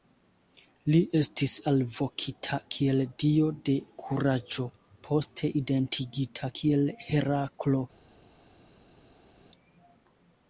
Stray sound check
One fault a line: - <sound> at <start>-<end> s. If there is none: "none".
none